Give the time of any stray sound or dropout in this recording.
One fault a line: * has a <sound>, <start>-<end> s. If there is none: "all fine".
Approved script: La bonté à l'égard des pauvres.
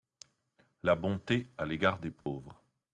* has a dropout, 2.2-2.3 s